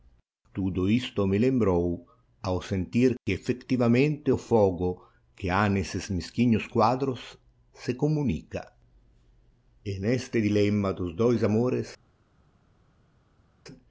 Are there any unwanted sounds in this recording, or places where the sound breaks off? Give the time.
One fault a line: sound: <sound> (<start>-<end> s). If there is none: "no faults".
no faults